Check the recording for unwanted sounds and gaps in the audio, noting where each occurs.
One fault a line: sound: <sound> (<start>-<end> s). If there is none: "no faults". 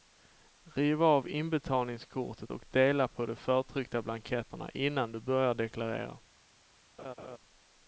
sound: laugh (7.0-7.4 s)